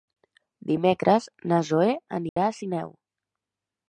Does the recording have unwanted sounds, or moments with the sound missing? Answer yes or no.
yes